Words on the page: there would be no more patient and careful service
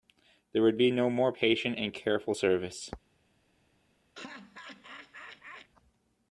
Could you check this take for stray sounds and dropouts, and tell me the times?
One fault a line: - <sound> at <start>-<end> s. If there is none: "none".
- laugh at 4.2-5.7 s